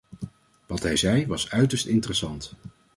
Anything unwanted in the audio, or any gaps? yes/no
no